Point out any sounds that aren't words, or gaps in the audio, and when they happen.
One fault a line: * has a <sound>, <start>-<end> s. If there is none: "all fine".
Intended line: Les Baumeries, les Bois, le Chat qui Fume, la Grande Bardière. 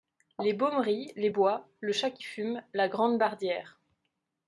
all fine